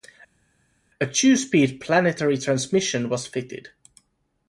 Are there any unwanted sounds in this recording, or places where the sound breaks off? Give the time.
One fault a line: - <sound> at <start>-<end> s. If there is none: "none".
none